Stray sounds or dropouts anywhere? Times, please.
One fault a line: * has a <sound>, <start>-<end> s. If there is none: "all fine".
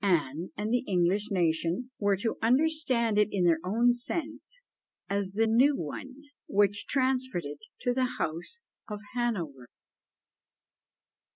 all fine